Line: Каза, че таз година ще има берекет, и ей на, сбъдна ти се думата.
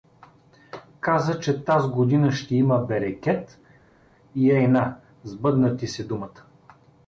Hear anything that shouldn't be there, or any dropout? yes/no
no